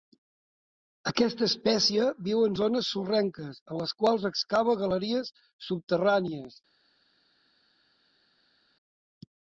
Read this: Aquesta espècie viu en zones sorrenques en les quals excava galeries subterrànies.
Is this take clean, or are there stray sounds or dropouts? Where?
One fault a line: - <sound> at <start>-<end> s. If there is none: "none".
none